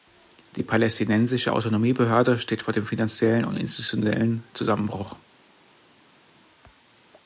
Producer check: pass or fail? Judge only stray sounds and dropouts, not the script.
pass